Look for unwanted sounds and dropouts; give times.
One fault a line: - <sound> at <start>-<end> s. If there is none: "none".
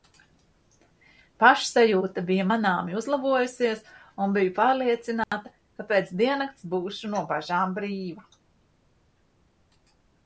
- dropout at 5.2-5.3 s